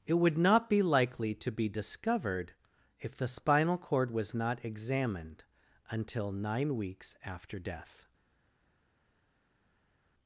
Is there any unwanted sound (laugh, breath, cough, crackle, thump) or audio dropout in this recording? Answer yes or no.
no